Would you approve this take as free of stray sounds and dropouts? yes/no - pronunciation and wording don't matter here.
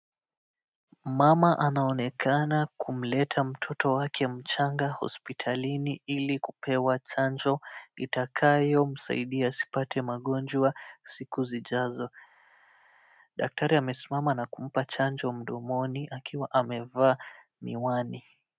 yes